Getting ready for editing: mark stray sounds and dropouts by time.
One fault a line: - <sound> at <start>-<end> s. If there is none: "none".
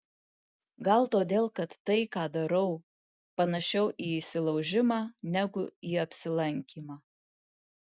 none